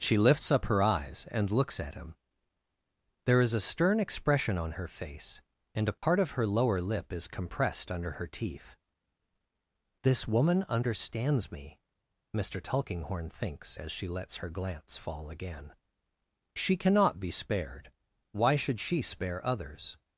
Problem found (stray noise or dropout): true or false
true